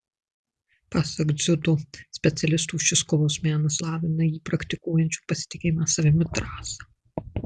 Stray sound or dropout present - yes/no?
no